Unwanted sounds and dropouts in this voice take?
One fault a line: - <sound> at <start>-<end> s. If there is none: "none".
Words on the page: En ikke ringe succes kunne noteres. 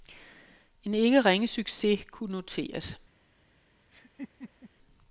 - laugh at 3.9-4.7 s